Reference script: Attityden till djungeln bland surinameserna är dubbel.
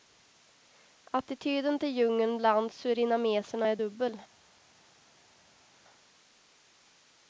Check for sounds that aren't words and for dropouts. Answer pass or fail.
pass